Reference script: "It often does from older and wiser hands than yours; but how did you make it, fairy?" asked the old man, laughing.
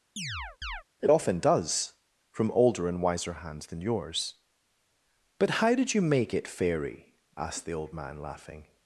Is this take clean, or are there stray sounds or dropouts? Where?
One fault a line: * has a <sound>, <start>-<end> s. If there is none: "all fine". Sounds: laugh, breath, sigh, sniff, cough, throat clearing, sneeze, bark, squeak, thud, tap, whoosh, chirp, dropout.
* has a chirp, 0.2-0.8 s